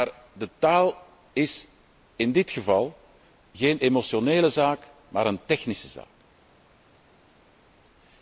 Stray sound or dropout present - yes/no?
no